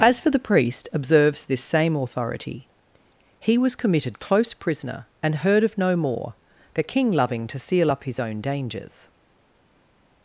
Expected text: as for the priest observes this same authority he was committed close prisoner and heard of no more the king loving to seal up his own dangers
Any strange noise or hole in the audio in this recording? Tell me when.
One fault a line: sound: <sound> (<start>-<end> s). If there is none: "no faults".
no faults